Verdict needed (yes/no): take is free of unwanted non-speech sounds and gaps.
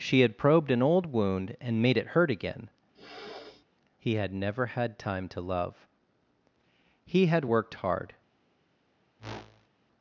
no